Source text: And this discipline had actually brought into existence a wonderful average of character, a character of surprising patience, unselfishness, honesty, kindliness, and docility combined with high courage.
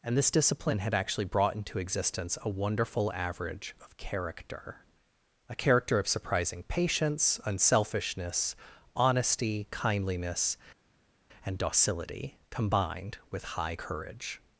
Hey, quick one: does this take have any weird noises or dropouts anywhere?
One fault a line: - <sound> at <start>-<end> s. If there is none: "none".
none